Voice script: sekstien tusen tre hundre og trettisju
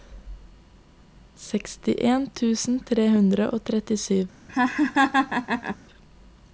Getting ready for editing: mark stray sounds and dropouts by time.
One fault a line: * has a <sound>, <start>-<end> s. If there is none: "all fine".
* has a laugh, 4.5-5.8 s